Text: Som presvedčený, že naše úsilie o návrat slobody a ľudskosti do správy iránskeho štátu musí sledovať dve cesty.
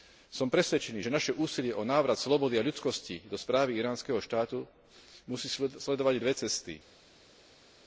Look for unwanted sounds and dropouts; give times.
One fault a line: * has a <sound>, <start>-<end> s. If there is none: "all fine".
all fine